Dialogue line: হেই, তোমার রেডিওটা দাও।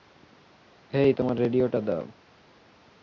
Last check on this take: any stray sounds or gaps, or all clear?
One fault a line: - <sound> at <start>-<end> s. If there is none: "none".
none